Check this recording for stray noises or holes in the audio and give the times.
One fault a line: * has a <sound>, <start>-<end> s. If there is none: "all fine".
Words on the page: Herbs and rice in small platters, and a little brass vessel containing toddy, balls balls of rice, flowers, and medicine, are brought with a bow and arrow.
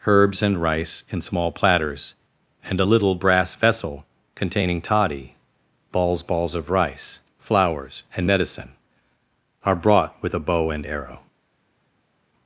all fine